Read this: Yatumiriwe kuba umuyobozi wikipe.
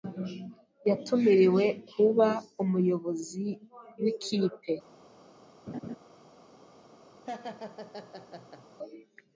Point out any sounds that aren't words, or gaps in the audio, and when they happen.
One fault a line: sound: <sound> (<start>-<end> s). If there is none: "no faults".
sound: laugh (5.7-6.0 s)
sound: laugh (7.3-8.7 s)